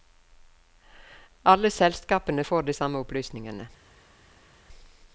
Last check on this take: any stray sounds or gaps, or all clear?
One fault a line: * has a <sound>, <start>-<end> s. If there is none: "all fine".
all fine